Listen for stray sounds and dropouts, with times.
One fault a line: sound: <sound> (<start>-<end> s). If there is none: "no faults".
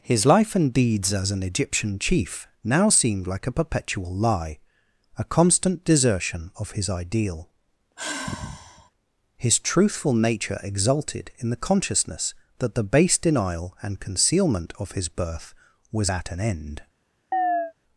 sound: sigh (8.0-8.9 s)
sound: chirp (17.3-17.7 s)